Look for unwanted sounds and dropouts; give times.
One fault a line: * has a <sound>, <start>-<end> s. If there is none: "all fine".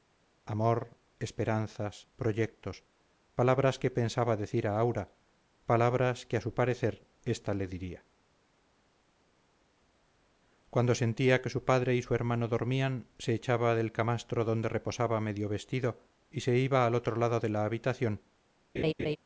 * has a laugh, 18.8-19.2 s